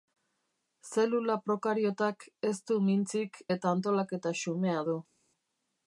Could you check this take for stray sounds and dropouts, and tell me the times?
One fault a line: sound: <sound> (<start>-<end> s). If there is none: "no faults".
no faults